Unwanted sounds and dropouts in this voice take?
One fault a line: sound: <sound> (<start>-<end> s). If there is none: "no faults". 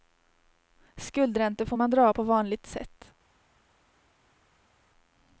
no faults